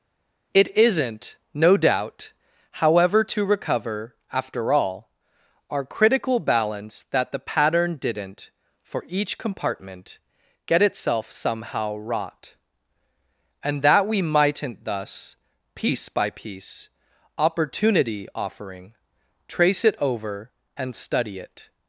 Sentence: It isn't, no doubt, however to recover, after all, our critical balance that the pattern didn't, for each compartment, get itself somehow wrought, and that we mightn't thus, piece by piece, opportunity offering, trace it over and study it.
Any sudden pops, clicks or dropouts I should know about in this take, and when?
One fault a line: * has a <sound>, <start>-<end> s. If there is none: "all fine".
all fine